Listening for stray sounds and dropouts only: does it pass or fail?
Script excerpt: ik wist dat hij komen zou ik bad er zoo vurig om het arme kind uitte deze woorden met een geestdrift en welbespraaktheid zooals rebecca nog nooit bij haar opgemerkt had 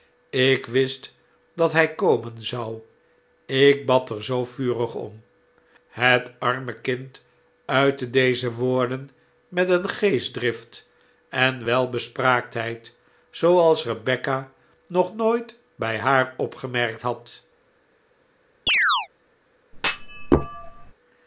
fail